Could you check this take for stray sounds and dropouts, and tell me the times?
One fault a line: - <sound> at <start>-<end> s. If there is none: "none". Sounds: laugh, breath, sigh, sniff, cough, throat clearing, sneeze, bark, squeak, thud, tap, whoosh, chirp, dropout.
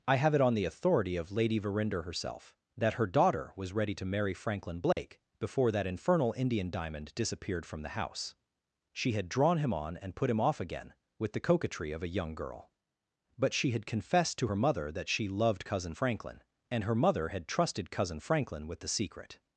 - dropout at 4.9-5.0 s